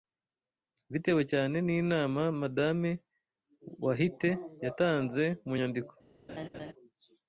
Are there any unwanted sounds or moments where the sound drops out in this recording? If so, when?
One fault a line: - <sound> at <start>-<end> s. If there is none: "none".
- laugh at 6.3-6.7 s